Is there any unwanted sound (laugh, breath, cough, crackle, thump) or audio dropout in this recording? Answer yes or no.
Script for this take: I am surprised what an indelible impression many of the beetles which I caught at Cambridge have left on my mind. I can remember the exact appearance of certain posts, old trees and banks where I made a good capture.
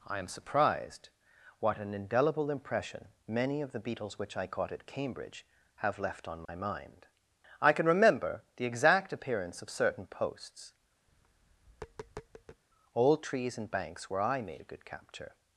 yes